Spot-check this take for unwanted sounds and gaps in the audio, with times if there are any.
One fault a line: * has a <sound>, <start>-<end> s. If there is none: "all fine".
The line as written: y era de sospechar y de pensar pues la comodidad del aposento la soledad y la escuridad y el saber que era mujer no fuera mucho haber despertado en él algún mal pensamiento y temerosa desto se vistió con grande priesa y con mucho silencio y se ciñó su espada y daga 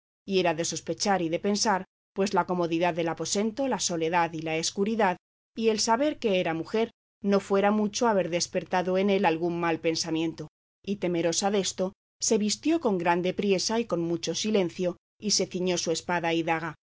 all fine